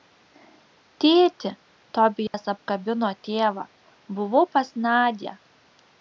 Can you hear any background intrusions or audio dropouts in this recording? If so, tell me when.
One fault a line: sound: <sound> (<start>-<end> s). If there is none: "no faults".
sound: dropout (2.3-2.3 s)